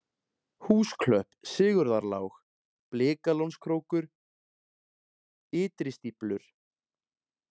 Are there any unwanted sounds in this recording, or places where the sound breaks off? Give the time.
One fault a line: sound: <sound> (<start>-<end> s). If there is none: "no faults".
no faults